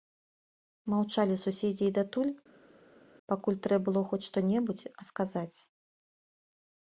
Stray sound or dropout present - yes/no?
no